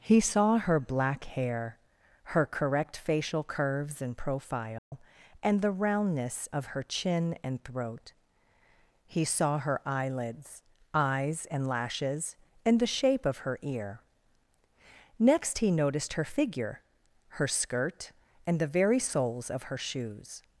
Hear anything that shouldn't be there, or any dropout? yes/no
yes